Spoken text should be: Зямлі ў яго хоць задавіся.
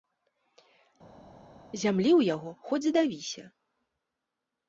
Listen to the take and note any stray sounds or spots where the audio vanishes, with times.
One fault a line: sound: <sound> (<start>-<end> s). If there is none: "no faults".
no faults